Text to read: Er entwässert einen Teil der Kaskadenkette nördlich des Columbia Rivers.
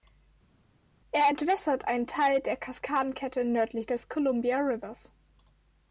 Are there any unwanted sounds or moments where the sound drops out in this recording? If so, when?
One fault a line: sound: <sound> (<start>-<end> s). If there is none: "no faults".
no faults